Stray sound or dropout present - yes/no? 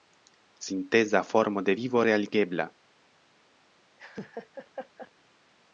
yes